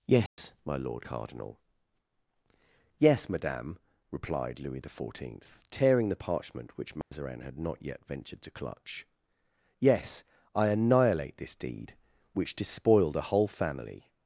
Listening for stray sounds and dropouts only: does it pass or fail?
fail